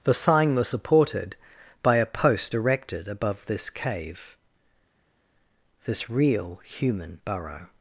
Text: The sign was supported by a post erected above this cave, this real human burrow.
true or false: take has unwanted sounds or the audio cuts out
false